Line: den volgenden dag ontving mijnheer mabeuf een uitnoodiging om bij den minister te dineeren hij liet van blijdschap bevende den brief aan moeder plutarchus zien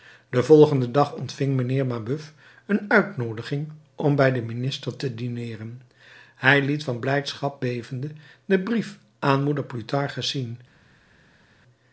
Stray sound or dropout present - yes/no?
no